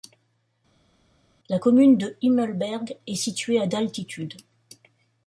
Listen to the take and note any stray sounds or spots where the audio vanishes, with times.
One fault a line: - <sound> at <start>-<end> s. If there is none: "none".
none